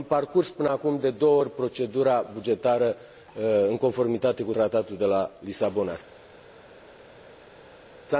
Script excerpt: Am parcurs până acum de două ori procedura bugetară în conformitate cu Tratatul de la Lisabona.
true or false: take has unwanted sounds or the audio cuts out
false